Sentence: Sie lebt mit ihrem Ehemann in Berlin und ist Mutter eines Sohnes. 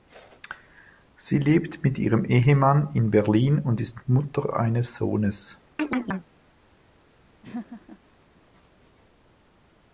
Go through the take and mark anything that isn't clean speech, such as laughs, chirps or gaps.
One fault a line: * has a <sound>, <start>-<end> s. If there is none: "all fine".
* has a chirp, 5.8-6.3 s
* has a laugh, 7.4-8.0 s